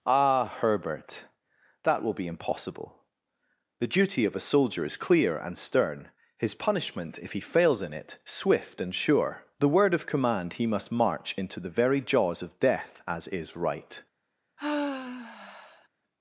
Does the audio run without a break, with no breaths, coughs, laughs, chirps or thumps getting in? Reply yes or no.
no